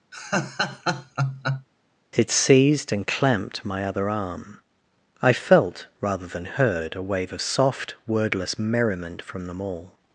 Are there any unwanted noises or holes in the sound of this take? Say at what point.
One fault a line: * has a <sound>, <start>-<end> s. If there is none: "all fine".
* has a laugh, 0.1-1.7 s